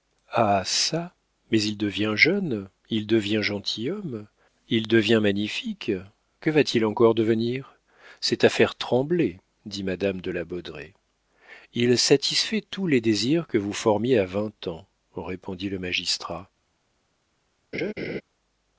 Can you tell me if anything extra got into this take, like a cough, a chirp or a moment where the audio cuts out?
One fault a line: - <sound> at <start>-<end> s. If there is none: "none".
- laugh at 17.7-18.2 s